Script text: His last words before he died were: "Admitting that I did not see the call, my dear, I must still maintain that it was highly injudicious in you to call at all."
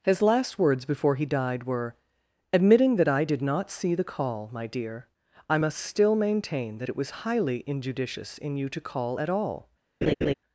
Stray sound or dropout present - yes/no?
yes